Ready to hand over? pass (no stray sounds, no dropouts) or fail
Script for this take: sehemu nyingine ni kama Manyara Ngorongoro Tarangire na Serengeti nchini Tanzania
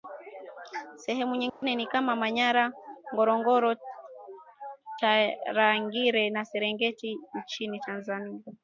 fail